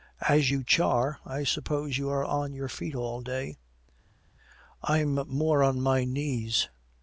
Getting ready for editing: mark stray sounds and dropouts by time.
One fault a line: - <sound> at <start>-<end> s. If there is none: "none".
none